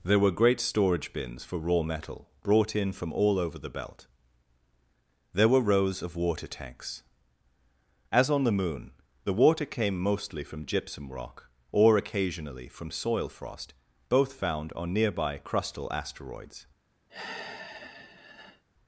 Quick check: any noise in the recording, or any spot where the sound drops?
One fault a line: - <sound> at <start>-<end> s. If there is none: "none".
- sigh at 17.1-18.6 s